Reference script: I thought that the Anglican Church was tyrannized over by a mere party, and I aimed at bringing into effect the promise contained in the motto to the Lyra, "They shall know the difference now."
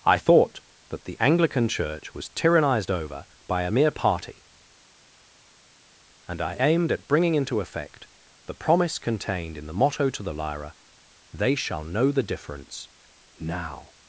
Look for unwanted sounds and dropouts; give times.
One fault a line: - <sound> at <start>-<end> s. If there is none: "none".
none